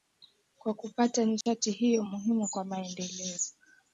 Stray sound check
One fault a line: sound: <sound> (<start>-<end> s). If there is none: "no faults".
sound: dropout (1.4-1.5 s)